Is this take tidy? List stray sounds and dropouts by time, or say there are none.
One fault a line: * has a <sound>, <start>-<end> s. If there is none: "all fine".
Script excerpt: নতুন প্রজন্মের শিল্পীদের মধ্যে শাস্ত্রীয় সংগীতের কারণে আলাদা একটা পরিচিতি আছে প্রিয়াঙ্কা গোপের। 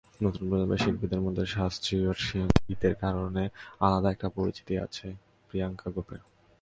all fine